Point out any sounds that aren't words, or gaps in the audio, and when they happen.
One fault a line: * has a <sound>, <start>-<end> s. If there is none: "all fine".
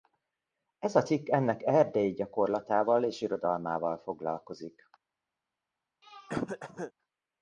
* has a throat clearing, 6.0-6.9 s